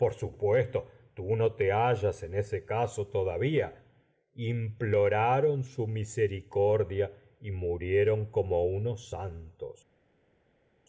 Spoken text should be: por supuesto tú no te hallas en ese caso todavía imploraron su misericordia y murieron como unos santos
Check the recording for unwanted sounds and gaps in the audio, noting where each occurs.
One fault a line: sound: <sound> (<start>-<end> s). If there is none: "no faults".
no faults